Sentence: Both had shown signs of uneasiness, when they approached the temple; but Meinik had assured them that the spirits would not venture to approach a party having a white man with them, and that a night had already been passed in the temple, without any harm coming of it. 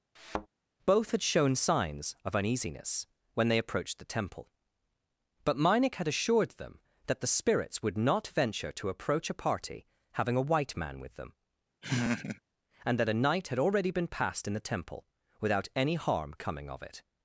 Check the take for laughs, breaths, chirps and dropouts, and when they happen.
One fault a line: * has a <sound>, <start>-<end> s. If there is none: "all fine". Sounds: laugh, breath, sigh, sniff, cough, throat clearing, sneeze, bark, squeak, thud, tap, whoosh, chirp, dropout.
* has a thud, 0.2-0.5 s
* has a laugh, 11.8-12.4 s